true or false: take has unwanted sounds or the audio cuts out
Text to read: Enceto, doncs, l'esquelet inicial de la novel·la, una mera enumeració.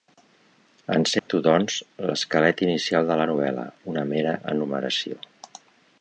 true